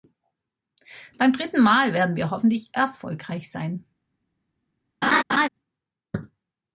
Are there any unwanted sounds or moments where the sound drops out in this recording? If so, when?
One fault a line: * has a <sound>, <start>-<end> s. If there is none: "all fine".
* has a laugh, 5.0-5.5 s